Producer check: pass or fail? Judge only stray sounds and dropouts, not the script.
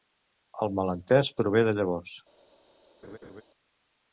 fail